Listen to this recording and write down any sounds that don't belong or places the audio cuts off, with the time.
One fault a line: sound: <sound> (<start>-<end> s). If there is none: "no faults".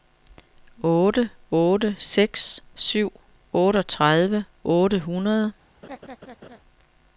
sound: laugh (5.8-6.6 s)